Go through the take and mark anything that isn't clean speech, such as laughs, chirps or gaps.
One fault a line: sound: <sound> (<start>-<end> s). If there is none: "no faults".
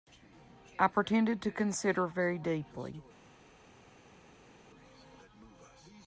no faults